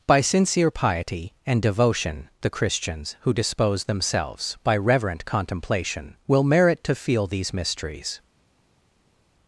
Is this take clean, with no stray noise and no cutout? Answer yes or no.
yes